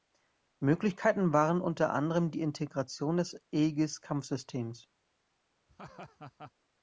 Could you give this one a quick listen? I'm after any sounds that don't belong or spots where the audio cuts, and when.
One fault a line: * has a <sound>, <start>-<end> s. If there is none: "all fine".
* has a laugh, 5.7-6.5 s